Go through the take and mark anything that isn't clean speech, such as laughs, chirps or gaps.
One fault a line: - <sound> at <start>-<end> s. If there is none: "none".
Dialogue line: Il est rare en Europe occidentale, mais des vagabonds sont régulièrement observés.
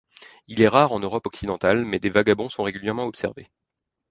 none